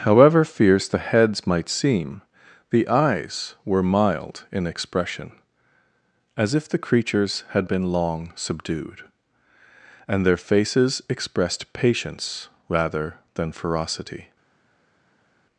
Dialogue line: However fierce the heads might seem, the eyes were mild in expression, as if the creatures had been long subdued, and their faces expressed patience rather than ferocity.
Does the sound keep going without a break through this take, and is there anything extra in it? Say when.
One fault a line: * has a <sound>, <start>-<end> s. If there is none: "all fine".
all fine